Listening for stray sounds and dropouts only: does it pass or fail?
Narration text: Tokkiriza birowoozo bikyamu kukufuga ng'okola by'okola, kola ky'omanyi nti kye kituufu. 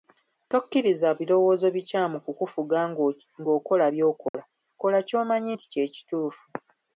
fail